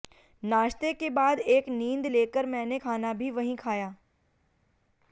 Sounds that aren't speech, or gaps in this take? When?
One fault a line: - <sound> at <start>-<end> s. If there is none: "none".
none